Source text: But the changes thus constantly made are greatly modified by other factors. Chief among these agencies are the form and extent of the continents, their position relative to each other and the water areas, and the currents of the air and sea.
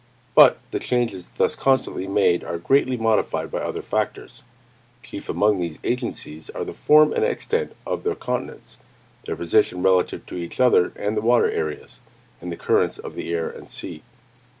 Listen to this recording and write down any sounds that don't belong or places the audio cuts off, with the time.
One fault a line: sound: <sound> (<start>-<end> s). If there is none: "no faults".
no faults